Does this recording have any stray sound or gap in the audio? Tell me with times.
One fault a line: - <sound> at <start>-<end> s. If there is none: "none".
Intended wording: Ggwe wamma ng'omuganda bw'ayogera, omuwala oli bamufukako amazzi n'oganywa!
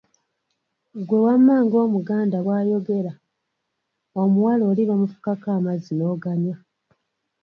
none